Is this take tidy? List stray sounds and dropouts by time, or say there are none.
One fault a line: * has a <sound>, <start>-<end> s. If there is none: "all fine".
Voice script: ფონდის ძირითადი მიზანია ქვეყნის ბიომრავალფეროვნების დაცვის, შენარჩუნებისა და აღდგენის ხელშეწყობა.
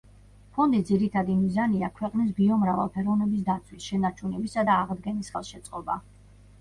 all fine